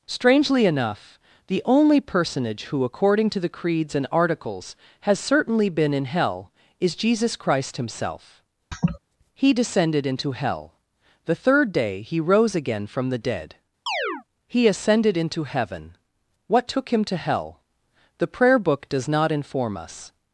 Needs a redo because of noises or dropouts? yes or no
yes